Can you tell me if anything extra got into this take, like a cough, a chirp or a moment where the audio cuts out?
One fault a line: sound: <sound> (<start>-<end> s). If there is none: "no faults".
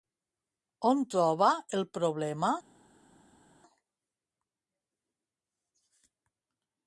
no faults